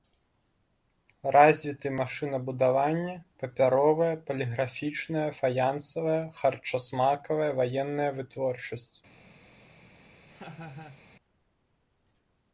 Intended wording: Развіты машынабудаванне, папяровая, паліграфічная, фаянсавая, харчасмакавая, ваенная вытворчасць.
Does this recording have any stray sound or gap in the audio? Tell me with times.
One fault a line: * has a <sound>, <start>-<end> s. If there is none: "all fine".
* has a laugh, 10.3-11.0 s